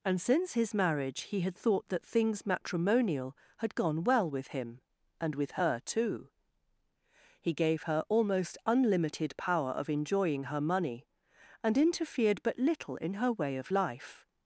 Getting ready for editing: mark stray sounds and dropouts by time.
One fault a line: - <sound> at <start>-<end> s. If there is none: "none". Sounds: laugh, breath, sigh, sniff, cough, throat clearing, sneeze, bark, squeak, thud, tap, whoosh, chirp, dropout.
none